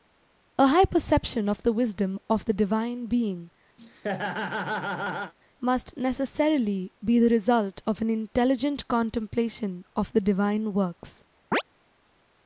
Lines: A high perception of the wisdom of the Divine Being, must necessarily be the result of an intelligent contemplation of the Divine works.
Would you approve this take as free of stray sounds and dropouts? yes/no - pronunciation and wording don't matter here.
no